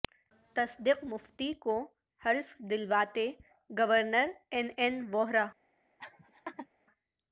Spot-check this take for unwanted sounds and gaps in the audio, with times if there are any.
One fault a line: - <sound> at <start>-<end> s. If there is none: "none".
- laugh at 6.0-6.7 s